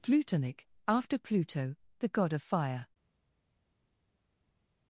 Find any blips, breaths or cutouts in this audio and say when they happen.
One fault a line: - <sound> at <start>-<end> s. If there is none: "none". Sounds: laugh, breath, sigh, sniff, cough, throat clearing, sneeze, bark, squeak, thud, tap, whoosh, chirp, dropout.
none